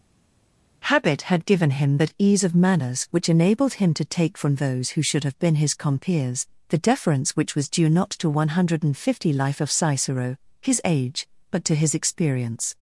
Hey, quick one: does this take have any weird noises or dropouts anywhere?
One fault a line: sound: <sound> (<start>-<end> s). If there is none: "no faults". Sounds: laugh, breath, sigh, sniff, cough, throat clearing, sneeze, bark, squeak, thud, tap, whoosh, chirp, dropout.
no faults